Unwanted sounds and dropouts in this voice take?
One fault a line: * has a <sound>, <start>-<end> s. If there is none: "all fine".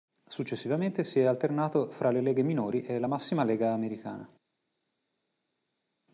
all fine